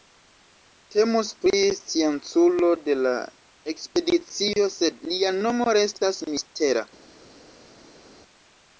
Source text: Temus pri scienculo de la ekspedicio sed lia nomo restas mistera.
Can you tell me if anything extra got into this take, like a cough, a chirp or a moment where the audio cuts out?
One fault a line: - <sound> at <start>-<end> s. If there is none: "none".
none